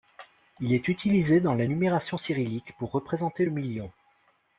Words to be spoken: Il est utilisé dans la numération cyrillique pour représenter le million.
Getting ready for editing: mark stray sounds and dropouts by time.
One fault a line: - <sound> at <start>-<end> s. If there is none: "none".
none